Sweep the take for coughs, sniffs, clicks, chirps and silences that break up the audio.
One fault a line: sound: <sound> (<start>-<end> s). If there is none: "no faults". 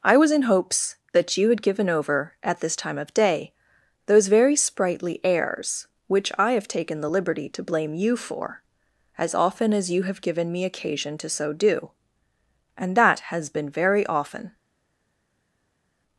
no faults